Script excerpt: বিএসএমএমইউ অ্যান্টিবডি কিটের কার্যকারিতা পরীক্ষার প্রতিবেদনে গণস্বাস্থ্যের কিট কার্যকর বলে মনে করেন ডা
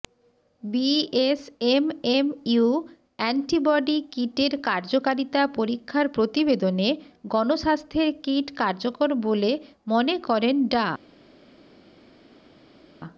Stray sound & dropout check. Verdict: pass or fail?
pass